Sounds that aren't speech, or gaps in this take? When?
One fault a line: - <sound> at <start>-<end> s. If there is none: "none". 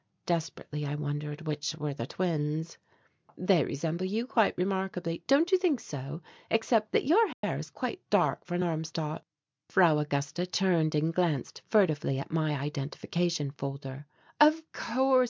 - dropout at 7.3-7.4 s